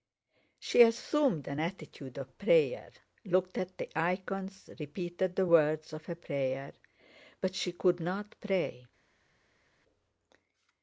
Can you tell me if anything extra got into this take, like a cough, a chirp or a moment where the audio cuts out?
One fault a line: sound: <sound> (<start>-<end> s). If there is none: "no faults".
no faults